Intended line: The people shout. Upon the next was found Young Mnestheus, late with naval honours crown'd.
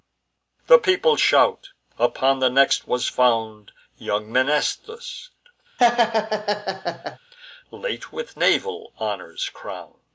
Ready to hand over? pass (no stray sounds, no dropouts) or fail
fail